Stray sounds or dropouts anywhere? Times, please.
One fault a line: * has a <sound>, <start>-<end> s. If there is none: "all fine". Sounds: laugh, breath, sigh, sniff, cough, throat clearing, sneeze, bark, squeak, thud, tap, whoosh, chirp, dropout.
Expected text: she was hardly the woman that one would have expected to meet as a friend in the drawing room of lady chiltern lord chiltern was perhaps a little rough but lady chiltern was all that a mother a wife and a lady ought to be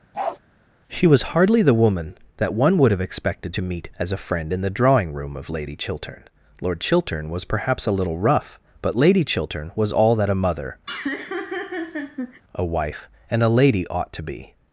* has a bark, 0.1-0.4 s
* has a laugh, 10.9-12.4 s